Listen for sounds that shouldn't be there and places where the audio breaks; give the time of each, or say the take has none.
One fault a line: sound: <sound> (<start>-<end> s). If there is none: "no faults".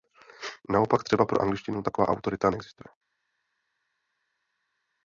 no faults